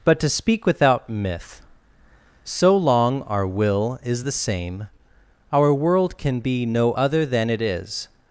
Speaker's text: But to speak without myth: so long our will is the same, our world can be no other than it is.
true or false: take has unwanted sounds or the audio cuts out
false